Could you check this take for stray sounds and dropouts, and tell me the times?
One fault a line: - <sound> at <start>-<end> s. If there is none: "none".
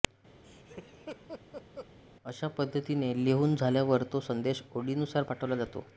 - laugh at 0.4-1.9 s